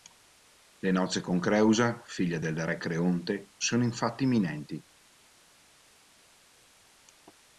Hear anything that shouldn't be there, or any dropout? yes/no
no